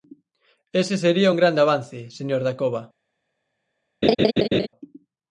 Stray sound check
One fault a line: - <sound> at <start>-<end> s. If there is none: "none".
- laugh at 4.0-4.7 s